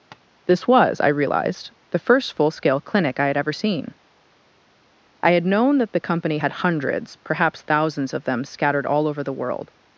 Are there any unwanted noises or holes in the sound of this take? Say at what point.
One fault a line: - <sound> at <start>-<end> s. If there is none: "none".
- tap at 0.1-0.2 s